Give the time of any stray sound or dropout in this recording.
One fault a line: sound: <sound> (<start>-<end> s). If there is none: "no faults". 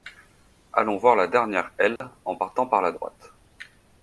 sound: dropout (2.0-2.0 s)